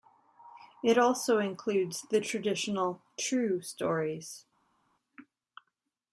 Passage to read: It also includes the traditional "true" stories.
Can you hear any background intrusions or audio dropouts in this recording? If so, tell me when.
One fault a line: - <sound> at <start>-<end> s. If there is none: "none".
none